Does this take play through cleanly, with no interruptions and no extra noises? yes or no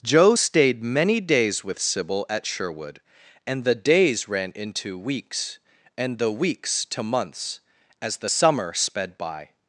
yes